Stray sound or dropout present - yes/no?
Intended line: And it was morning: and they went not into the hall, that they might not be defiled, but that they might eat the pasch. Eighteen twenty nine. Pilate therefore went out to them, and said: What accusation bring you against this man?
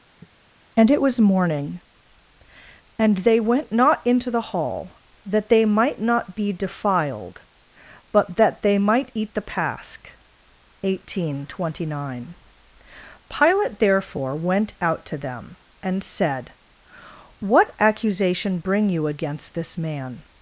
yes